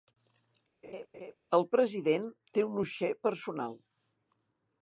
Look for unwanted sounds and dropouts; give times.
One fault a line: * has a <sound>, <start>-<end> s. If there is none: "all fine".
* has a laugh, 0.8-1.3 s